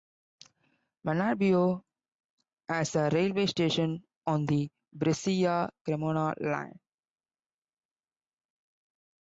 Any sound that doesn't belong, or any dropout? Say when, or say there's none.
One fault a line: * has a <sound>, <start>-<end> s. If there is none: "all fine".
all fine